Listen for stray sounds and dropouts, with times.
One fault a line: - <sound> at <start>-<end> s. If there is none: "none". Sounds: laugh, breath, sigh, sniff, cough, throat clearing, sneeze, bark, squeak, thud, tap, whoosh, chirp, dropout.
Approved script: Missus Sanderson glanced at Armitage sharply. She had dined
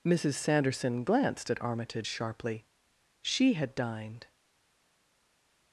none